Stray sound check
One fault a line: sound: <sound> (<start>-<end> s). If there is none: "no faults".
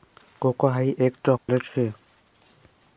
sound: dropout (1.4-1.5 s)